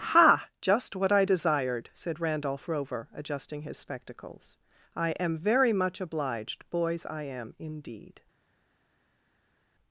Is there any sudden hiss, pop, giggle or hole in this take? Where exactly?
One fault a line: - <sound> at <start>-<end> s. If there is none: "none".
none